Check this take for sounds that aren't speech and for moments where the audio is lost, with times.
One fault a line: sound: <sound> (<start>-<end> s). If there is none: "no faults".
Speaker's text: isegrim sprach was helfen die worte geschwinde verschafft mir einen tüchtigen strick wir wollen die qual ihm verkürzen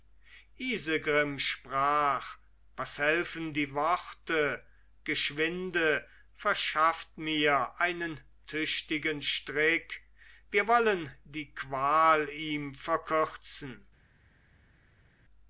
no faults